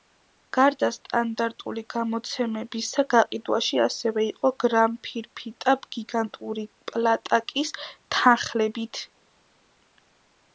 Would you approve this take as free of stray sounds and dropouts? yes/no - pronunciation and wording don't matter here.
yes